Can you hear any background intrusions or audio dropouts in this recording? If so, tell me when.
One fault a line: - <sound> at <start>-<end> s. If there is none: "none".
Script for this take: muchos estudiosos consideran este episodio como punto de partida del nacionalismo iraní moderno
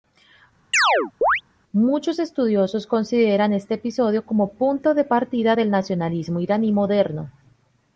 - chirp at 0.7-1.4 s